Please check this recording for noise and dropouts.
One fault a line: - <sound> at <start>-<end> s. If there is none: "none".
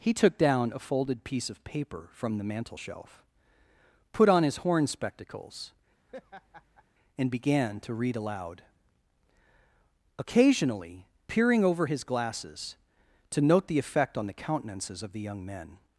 - laugh at 6.1-6.8 s